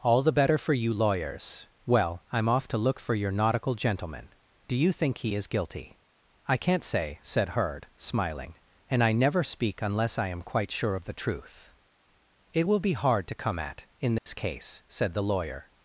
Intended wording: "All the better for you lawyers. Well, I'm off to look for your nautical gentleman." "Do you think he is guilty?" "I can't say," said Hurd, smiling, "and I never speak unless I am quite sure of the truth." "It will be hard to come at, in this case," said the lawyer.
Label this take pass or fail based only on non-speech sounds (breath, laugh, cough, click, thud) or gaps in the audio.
fail